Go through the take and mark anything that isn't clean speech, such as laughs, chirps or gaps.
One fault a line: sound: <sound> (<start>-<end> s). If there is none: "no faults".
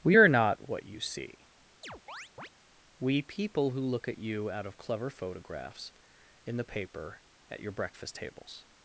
sound: chirp (1.8-2.5 s)